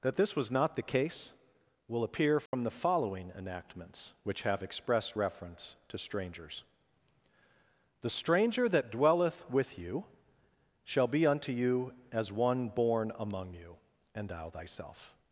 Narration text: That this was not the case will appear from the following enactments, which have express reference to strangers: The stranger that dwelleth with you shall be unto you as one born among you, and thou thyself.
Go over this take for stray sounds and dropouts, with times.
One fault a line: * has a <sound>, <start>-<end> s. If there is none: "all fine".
* has a dropout, 2.5-2.5 s